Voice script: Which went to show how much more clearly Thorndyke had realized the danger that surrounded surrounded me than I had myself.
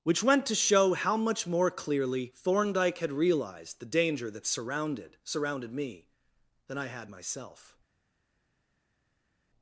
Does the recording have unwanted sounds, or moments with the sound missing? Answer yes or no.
no